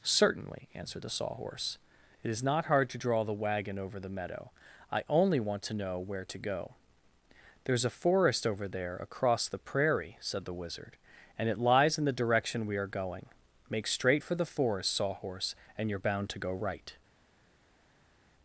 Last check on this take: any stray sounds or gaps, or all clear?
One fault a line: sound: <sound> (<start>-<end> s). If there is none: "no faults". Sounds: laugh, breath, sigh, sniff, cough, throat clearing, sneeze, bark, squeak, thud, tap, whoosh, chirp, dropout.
no faults